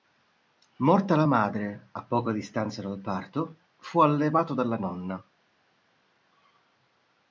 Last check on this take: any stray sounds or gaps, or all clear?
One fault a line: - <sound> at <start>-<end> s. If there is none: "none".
none